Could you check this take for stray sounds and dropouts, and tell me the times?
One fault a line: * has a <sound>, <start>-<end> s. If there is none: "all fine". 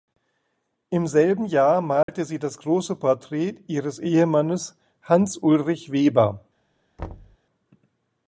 * has a dropout, 2.0-2.1 s
* has a thud, 7.0-7.4 s